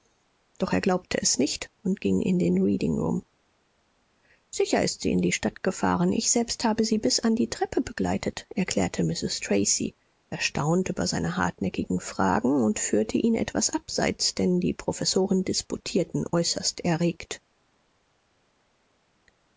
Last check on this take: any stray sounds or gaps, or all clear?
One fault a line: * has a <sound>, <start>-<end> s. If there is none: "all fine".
all fine